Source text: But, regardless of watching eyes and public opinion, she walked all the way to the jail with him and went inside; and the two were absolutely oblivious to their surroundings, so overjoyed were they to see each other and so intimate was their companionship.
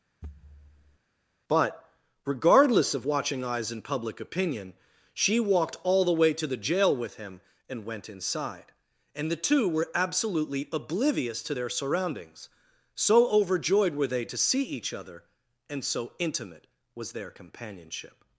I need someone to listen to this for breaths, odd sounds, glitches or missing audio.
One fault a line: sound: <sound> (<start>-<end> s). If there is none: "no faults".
sound: thud (0.2-1.0 s)